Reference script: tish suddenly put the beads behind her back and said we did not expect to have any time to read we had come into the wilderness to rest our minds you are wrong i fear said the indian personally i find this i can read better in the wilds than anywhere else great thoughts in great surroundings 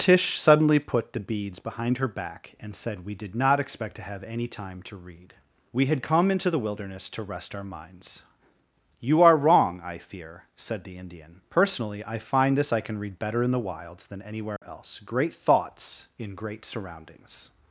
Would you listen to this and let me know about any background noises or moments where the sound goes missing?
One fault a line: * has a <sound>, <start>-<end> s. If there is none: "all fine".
* has a dropout, 14.6-14.6 s